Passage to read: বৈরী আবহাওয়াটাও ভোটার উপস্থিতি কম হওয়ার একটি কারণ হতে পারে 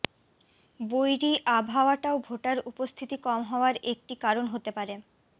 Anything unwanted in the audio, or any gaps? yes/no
no